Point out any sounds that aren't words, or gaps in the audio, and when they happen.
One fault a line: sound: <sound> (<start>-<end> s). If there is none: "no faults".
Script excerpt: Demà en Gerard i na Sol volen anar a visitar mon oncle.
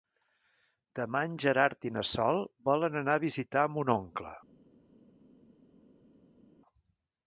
no faults